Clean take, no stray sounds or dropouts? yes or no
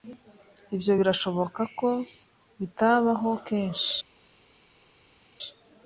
yes